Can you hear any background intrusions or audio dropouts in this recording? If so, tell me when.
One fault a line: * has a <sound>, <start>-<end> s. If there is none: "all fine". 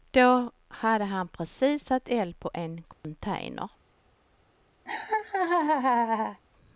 * has a dropout, 2.9-3.0 s
* has a laugh, 4.9-6.4 s